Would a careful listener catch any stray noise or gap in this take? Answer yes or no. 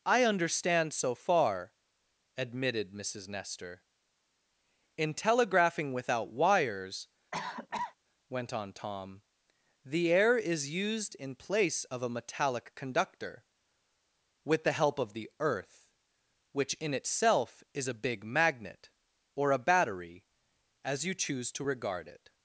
yes